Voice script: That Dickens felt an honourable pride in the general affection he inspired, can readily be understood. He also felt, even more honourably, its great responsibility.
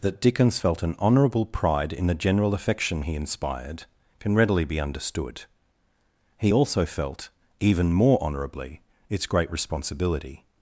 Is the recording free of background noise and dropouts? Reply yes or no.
yes